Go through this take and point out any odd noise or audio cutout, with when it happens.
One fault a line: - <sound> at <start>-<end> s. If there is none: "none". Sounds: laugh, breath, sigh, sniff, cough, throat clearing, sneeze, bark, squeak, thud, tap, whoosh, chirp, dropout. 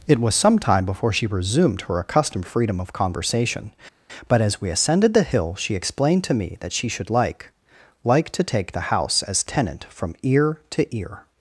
none